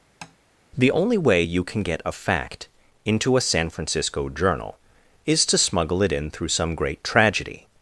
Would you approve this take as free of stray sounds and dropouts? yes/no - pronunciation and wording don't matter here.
no